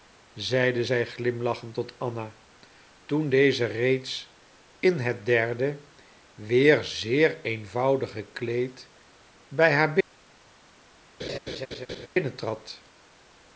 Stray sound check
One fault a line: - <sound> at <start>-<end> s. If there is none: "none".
- laugh at 11.2-12.1 s